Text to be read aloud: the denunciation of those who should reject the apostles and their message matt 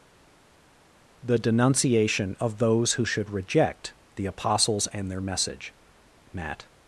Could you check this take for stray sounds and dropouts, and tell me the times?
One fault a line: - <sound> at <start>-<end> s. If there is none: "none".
none